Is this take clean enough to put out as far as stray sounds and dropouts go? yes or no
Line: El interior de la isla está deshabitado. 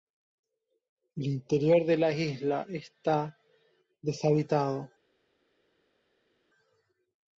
yes